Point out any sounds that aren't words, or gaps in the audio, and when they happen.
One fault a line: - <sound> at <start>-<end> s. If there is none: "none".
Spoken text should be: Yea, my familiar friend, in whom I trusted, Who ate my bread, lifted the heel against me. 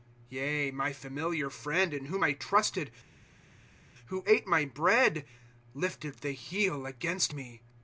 none